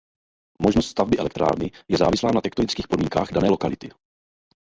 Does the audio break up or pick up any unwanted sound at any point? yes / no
no